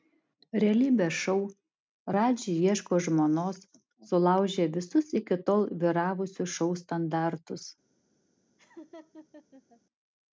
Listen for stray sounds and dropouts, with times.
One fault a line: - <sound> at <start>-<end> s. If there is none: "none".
- laugh at 8.6-9.8 s